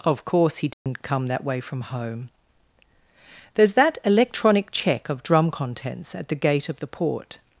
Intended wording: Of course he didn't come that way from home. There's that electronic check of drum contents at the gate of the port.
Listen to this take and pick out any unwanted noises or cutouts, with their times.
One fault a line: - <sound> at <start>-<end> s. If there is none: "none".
- dropout at 0.7-0.9 s